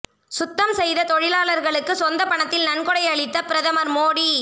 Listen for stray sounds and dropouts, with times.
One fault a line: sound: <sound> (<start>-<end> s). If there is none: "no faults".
no faults